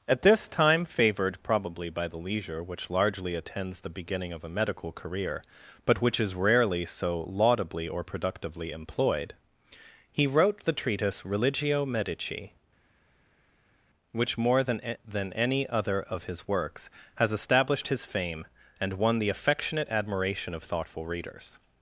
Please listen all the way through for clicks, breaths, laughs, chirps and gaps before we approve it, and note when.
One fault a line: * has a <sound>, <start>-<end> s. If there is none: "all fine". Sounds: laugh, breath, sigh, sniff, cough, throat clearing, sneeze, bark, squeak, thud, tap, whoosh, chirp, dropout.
all fine